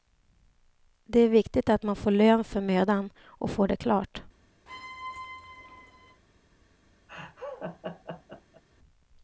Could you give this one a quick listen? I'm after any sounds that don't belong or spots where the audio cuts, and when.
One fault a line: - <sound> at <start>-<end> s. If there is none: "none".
- squeak at 4.7-6.2 s
- laugh at 7.1-8.6 s